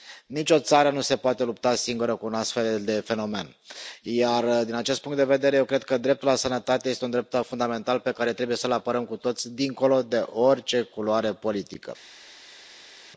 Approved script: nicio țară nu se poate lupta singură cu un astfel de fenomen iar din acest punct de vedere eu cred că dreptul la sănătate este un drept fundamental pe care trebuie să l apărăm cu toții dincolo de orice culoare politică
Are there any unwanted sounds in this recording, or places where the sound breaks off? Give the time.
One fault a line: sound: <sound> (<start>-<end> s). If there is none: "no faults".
no faults